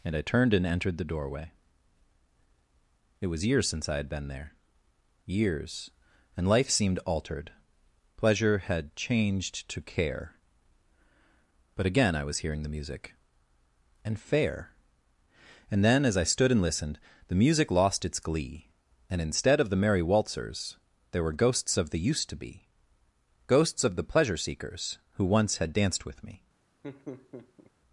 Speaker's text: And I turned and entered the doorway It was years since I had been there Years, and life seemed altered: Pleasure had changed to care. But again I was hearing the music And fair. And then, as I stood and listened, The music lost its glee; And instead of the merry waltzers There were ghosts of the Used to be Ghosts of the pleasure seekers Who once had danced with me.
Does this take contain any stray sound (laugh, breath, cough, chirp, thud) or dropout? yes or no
yes